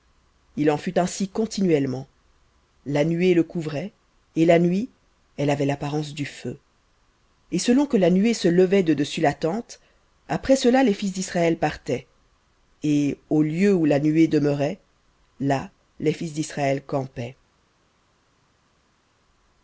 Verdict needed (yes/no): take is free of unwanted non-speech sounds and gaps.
yes